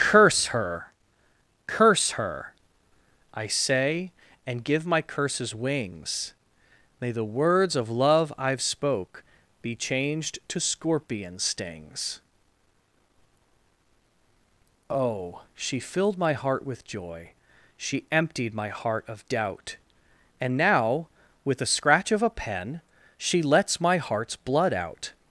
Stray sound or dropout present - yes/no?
no